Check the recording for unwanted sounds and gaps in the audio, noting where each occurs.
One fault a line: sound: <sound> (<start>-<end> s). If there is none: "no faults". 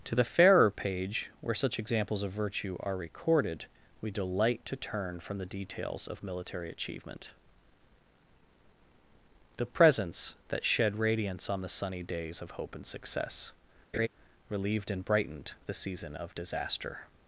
sound: laugh (13.9-14.1 s)